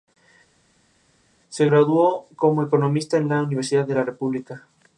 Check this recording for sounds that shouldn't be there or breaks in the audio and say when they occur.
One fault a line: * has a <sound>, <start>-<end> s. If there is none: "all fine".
all fine